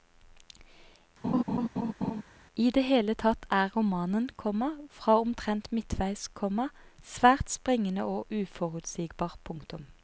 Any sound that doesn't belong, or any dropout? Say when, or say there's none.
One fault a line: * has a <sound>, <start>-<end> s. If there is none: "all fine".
* has a laugh, 1.2-2.2 s